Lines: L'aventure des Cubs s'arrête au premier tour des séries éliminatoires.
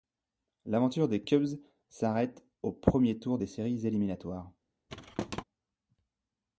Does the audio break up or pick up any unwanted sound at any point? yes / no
yes